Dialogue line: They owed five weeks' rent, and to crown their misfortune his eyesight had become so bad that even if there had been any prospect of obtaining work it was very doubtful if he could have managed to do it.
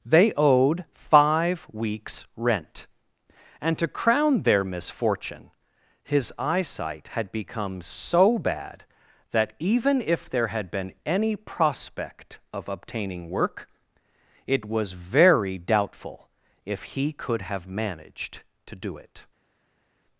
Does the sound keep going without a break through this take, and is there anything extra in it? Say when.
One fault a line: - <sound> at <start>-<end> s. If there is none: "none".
none